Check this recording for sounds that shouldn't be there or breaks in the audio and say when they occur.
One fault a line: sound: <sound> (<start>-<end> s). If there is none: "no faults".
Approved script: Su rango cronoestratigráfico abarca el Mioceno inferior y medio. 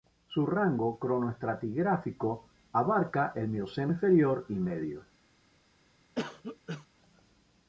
sound: cough (6.2-6.9 s)